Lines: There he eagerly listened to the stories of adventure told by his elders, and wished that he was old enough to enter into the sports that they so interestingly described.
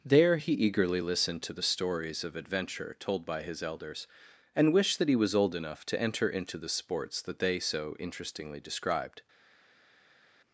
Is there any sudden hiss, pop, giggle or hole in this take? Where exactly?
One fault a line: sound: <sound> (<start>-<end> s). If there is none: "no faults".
no faults